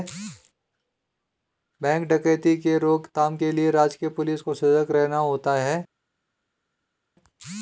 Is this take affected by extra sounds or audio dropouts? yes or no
no